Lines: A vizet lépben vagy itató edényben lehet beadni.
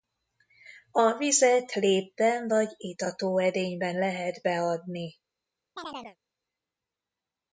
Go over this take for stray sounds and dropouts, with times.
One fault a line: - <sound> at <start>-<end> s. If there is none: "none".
- chirp at 5.8-6.2 s